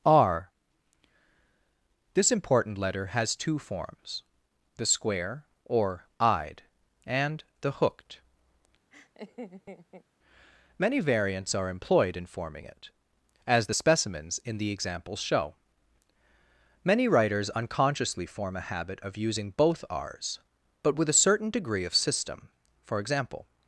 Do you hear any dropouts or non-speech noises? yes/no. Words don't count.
yes